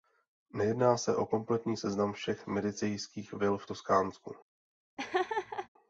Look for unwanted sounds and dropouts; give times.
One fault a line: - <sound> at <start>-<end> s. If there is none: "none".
- laugh at 5.0-5.7 s